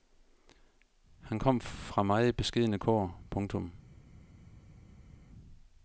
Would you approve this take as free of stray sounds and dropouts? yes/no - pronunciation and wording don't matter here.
yes